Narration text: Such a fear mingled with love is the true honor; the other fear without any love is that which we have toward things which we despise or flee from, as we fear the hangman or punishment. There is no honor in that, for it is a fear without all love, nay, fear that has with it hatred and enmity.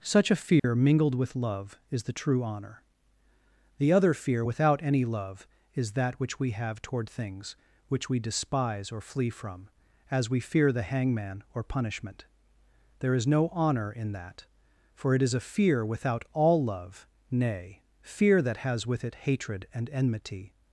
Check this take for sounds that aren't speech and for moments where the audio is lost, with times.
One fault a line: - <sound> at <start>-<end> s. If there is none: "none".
- dropout at 0.6-0.6 s